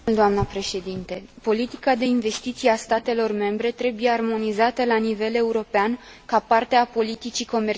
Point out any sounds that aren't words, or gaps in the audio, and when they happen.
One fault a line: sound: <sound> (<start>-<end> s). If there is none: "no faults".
no faults